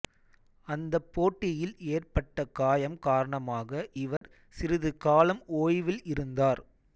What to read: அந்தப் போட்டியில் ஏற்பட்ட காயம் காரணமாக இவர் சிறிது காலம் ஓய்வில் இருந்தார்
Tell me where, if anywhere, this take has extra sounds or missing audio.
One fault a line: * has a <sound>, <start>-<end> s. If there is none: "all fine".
* has a dropout, 4.2-4.2 s